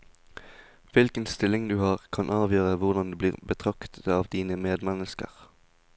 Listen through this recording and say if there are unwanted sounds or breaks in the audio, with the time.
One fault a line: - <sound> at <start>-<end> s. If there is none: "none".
none